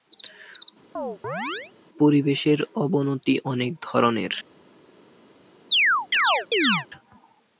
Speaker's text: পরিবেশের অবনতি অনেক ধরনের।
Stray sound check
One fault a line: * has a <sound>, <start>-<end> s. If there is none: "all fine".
* has a chirp, 1.0-1.7 s
* has a chirp, 5.7-6.9 s